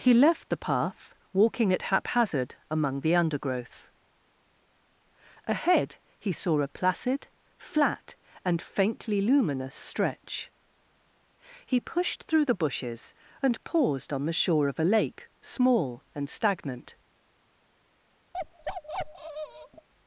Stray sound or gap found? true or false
true